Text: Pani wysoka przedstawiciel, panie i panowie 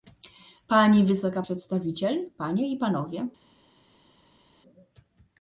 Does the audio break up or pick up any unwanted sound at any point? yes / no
no